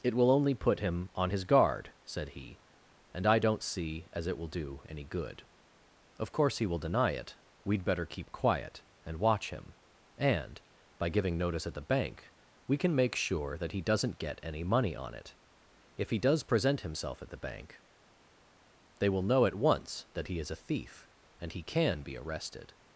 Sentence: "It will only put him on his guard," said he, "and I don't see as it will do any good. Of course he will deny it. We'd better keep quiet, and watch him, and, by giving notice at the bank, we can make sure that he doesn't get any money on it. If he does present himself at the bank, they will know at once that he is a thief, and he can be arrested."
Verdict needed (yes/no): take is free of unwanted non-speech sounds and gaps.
yes